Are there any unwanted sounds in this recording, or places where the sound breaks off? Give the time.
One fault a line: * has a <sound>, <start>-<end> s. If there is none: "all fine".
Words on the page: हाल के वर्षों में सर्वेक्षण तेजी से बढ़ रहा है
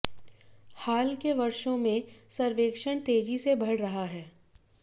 all fine